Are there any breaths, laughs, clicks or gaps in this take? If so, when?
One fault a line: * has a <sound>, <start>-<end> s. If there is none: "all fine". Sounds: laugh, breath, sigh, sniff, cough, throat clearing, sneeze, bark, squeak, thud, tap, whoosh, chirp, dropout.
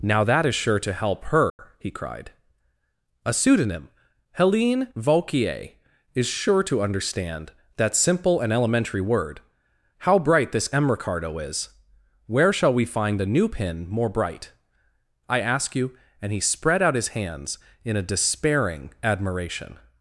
* has a dropout, 1.5-1.6 s